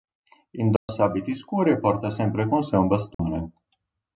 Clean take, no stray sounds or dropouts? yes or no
no